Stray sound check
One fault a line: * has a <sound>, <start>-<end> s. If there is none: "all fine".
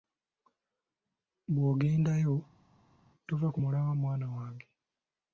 all fine